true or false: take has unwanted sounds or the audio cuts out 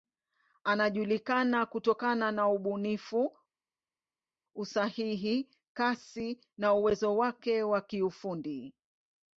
false